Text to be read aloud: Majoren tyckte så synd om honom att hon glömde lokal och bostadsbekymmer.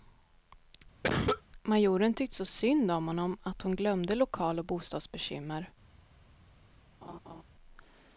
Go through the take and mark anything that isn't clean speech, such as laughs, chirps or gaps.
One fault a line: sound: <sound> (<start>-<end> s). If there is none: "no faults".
sound: cough (1.0-1.4 s)
sound: laugh (7.0-7.4 s)